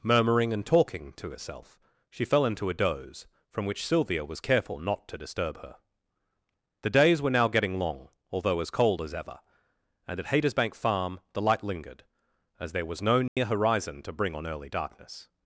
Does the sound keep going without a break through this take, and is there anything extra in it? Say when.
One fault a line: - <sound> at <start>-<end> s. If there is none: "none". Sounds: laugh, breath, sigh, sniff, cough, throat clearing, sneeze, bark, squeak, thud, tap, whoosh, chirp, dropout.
- dropout at 13.3-13.4 s